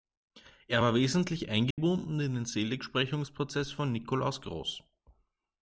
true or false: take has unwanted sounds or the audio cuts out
true